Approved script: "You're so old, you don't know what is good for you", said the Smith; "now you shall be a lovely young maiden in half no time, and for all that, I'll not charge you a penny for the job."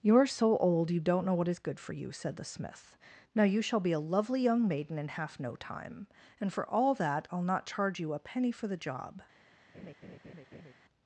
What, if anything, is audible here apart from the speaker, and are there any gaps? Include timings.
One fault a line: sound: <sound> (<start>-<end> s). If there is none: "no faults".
sound: laugh (9.7-10.7 s)